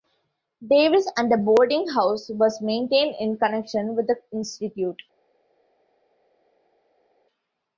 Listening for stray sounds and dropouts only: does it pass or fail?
pass